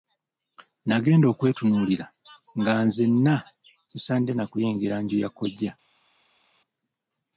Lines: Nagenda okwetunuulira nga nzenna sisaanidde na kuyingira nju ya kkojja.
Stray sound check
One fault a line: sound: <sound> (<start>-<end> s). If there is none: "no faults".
no faults